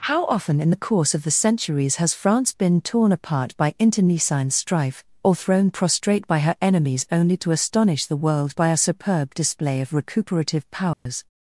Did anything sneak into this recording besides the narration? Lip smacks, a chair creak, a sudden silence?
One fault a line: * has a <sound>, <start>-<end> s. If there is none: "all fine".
* has a dropout, 10.9-11.1 s